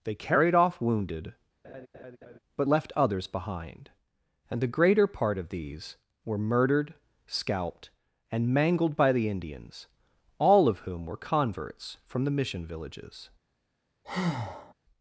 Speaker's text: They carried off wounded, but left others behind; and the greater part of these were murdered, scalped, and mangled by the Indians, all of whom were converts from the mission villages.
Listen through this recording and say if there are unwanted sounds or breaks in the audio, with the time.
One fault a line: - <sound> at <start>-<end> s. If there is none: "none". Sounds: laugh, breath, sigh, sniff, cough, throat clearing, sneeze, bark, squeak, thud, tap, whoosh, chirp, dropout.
- laugh at 1.6-2.4 s
- breath at 14.0-14.7 s